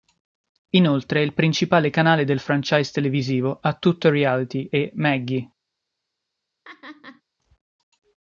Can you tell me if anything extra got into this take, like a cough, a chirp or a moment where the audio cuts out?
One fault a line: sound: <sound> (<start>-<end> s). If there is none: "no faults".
sound: laugh (6.6-7.2 s)